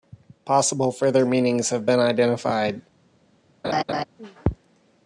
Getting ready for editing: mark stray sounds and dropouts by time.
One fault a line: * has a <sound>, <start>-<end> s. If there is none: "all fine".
* has a laugh, 3.6-4.0 s